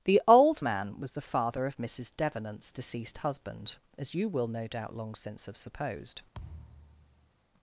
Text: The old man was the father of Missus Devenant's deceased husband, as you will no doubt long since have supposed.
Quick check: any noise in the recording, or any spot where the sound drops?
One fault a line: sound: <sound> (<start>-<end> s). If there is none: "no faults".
sound: thud (6.3-7.3 s)